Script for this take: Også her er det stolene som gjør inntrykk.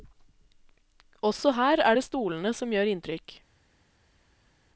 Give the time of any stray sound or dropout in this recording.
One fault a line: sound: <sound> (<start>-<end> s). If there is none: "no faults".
no faults